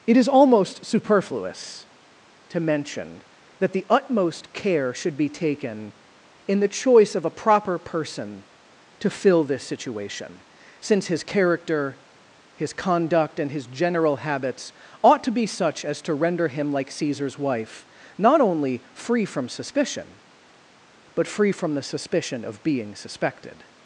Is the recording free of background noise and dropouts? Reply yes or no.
yes